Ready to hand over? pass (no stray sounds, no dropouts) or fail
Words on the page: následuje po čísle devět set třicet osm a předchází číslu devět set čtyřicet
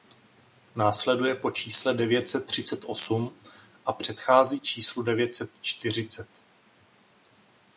pass